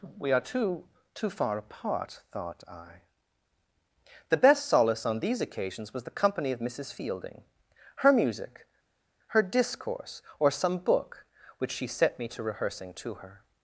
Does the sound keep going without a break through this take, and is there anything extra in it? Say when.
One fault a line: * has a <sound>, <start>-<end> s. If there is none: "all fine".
all fine